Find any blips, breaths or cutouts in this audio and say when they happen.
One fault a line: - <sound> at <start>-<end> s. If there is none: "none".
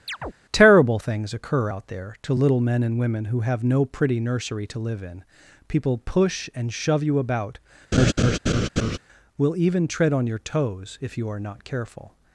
- chirp at 0.1-0.3 s
- laugh at 7.9-9.0 s